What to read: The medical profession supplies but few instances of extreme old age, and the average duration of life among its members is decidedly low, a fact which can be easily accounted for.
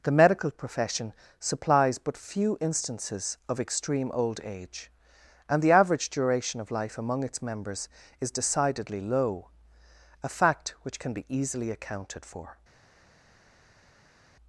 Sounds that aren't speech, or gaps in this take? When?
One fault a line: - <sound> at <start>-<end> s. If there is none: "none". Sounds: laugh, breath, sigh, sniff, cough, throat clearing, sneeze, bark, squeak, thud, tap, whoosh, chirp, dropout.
none